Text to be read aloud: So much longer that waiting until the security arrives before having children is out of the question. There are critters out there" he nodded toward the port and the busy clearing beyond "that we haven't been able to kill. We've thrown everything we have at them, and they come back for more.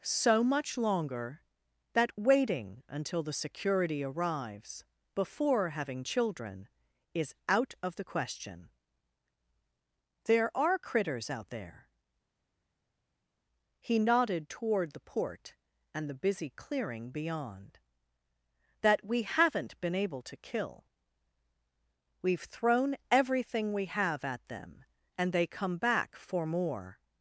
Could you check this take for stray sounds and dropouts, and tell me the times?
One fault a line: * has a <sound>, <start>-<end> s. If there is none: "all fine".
all fine